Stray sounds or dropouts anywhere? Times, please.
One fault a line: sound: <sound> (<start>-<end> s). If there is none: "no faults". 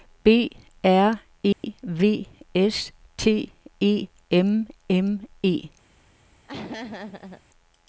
sound: dropout (1.5-1.6 s)
sound: laugh (6.4-7.4 s)